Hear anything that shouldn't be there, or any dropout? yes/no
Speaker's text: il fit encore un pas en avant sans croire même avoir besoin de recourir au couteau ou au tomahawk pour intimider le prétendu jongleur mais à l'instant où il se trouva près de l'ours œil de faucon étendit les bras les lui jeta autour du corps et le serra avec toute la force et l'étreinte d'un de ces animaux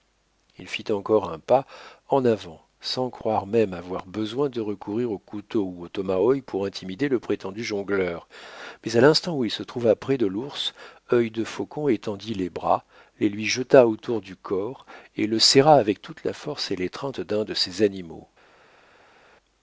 no